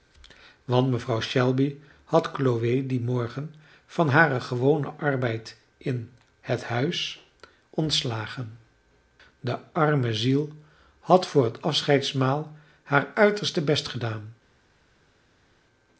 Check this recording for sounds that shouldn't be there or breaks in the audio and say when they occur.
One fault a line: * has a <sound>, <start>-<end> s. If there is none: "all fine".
all fine